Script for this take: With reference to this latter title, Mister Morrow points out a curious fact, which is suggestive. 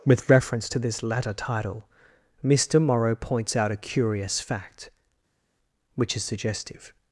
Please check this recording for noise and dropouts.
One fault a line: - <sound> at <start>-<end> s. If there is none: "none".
none